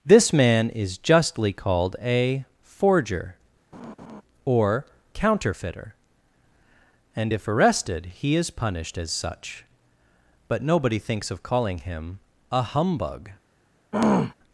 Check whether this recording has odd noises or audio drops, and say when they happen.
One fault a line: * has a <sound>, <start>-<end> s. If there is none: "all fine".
* has a laugh, 3.7-4.2 s
* has a throat clearing, 13.9-14.3 s